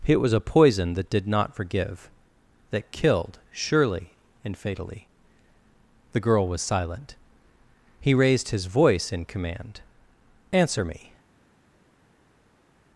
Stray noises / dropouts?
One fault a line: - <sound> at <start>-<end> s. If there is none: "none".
none